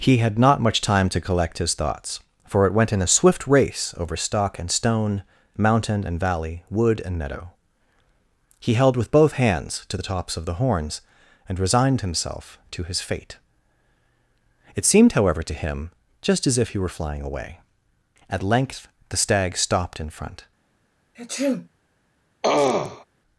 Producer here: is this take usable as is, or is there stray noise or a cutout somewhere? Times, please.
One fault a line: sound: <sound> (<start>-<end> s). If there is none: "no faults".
sound: sneeze (21.1-21.7 s)
sound: throat clearing (22.4-23.1 s)